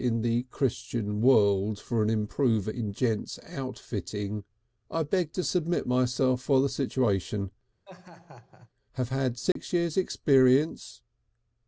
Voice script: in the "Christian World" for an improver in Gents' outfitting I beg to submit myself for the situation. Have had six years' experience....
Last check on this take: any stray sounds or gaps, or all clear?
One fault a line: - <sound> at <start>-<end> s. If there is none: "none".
- laugh at 7.8-8.7 s
- dropout at 9.5-9.6 s